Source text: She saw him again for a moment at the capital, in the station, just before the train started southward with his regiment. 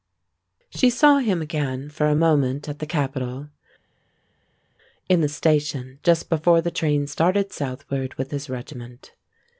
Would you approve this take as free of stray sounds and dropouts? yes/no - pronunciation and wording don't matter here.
yes